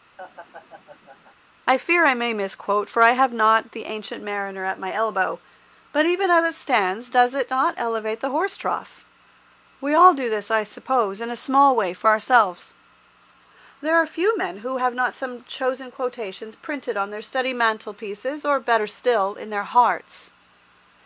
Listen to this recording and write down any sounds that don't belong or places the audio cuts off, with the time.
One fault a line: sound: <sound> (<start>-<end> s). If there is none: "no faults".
sound: laugh (0.2-1.3 s)